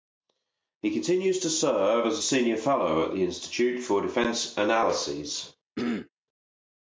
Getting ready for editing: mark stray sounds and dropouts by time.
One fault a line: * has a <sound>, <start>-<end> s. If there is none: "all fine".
* has a throat clearing, 5.8-6.1 s